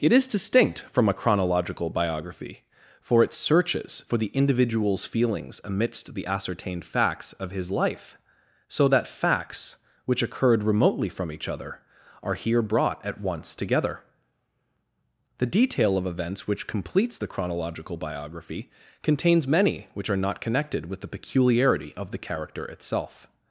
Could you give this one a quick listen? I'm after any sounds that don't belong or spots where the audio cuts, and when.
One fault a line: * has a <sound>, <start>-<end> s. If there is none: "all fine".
all fine